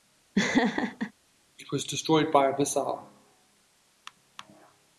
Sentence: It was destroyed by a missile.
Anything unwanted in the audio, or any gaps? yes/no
yes